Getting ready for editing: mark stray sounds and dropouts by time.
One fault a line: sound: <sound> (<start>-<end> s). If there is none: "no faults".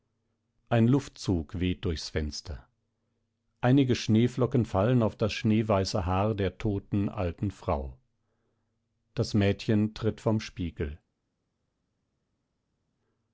no faults